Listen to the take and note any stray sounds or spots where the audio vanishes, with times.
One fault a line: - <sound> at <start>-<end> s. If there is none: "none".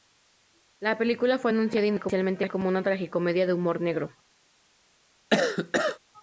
- cough at 5.3-6.0 s